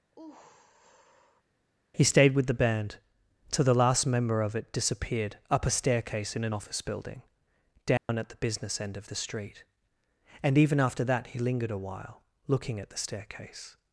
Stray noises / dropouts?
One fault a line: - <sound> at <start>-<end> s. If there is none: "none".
- sigh at 0.1-1.4 s
- dropout at 8.0-8.1 s